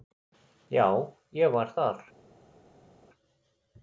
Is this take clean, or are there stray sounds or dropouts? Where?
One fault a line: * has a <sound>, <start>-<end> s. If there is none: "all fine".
all fine